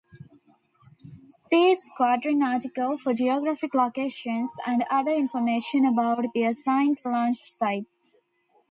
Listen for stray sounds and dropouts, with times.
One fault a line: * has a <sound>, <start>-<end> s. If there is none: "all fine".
all fine